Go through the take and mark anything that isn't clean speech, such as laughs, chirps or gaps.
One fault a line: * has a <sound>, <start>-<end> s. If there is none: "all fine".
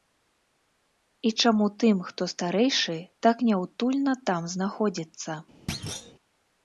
* has a thud, 5.7-6.1 s